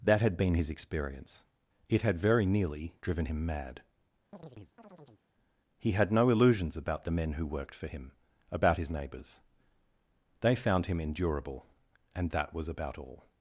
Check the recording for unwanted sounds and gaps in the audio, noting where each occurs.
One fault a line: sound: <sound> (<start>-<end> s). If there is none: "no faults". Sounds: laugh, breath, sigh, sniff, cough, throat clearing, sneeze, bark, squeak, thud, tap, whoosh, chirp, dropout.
sound: chirp (4.3-5.2 s)